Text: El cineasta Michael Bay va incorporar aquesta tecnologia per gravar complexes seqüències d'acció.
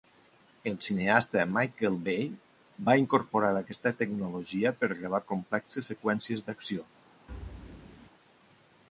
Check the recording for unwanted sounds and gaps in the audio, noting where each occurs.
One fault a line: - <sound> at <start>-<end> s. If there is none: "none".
- thud at 7.3-8.1 s